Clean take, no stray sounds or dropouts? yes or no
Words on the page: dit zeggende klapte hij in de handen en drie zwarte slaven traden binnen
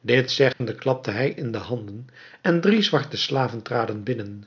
no